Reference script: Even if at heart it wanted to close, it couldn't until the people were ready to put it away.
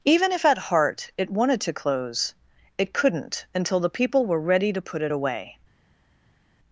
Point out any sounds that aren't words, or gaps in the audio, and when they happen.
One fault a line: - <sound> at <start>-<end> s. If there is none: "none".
none